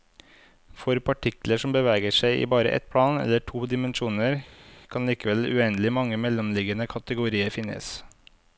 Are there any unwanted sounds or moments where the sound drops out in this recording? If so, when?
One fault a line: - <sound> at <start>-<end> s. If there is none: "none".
none